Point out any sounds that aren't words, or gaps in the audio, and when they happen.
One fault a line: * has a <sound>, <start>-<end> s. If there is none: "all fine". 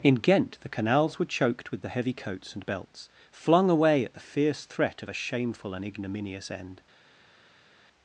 all fine